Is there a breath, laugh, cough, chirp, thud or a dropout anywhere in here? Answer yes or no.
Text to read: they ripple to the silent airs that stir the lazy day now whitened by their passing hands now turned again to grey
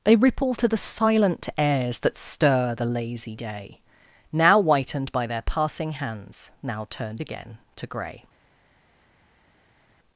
no